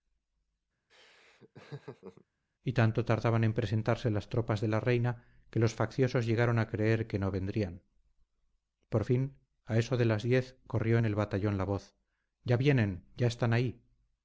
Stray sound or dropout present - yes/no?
yes